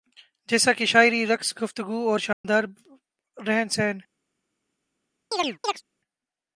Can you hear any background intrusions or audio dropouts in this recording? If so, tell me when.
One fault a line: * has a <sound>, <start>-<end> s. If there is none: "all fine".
* has a dropout, 2.3-2.4 s
* has a chirp, 5.3-5.8 s